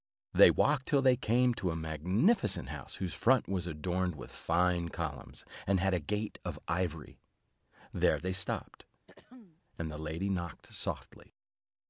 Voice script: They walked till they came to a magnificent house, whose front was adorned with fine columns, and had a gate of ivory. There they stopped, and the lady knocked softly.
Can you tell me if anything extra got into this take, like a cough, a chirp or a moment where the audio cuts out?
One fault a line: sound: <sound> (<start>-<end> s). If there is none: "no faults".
sound: throat clearing (9.1-9.6 s)